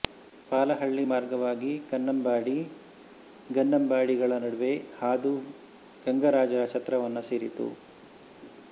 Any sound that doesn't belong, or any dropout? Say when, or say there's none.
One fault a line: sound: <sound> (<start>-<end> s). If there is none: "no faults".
no faults